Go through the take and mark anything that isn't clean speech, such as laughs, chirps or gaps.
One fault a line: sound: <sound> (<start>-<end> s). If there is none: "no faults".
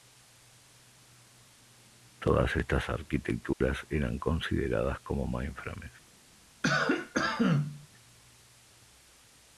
sound: dropout (3.5-3.6 s)
sound: cough (6.6-7.9 s)